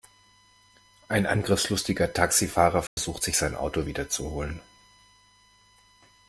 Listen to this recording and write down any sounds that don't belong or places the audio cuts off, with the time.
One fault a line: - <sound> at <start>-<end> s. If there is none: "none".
- dropout at 2.9-3.0 s